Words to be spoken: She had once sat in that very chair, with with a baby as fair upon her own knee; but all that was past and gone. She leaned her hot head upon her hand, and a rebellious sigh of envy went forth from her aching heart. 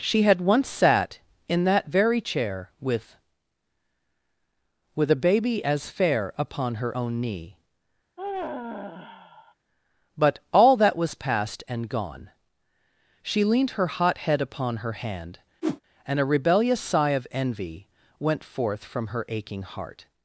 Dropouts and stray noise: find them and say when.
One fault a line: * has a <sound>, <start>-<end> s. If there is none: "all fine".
* has a sigh, 8.2-9.5 s
* has a whoosh, 15.6-15.8 s